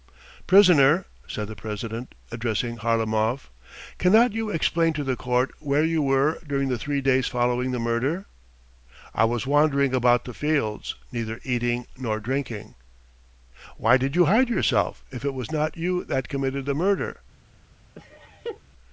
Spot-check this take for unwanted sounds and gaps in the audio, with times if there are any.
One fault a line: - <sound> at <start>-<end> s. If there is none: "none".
- laugh at 17.9-18.6 s